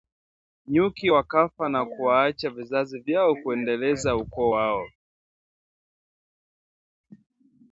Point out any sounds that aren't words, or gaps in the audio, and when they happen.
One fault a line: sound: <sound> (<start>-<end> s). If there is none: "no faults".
no faults